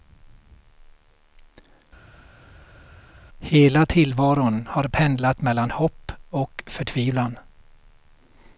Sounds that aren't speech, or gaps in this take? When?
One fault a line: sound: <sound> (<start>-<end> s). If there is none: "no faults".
no faults